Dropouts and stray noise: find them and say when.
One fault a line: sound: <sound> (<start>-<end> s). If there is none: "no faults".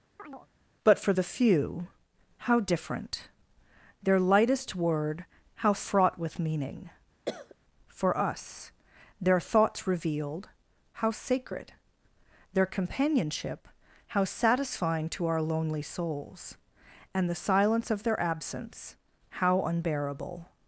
sound: chirp (0.2-0.5 s)
sound: cough (7.2-7.5 s)